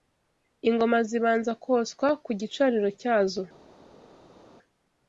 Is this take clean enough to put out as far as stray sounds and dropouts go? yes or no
yes